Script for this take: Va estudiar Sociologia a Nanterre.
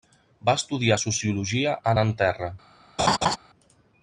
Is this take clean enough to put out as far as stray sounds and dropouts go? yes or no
no